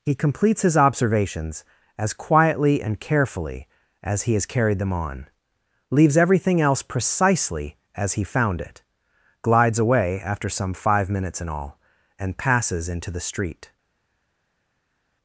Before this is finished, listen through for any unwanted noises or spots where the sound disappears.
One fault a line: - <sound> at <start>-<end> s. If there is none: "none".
none